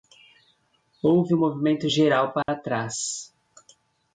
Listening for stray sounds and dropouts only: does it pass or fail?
fail